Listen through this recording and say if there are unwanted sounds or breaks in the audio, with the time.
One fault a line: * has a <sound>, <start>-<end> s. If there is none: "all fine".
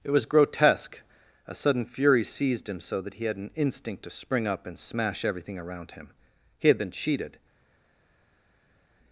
all fine